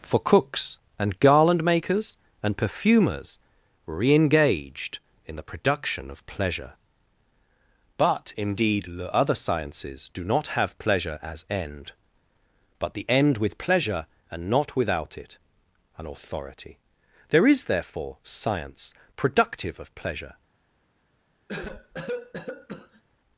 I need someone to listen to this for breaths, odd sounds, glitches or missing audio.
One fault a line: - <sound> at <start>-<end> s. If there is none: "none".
- cough at 21.5-23.0 s